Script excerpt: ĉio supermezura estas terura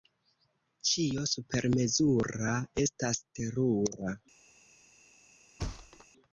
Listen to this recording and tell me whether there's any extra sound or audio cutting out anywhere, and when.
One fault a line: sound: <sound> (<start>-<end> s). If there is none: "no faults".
sound: thud (5.6-6.1 s)